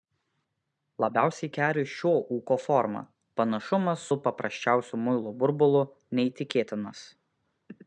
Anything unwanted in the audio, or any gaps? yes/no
no